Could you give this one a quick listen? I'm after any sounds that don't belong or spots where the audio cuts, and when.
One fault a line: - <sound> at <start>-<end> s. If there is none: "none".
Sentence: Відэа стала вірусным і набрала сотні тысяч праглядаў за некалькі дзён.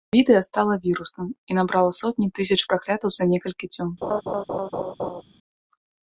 - laugh at 4.0-5.2 s